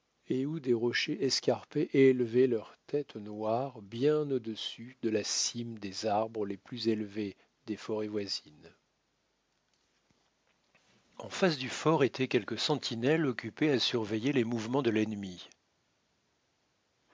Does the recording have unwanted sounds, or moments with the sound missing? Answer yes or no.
no